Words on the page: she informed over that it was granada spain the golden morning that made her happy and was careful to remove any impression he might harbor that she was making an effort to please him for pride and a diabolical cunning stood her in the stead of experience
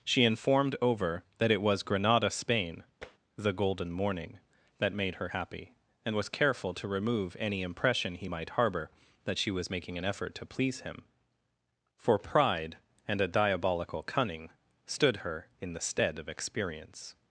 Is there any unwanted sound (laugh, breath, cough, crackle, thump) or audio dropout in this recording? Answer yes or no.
yes